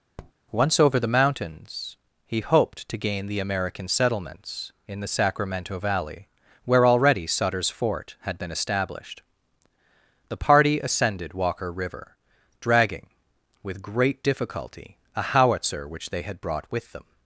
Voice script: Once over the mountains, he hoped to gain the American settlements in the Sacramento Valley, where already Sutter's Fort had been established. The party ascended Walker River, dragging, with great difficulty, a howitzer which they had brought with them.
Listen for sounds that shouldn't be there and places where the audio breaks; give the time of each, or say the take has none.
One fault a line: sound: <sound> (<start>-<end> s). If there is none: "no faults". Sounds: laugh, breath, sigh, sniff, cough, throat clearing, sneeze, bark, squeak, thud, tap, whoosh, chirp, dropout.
sound: tap (0.2-0.3 s)